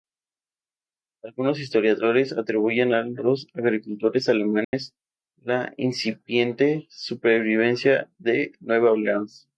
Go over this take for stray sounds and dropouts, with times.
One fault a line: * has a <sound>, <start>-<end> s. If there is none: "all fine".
* has a dropout, 4.6-4.7 s